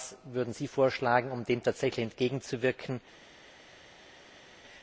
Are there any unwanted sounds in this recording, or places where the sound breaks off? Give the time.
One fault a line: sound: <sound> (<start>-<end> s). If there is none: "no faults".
no faults